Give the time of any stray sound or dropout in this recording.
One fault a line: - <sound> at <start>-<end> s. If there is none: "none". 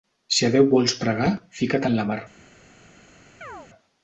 - chirp at 3.4-3.7 s